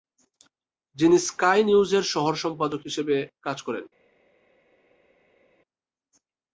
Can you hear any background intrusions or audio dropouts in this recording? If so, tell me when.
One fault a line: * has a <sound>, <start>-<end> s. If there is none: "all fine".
all fine